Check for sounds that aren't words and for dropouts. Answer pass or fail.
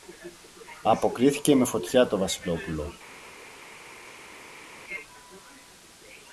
pass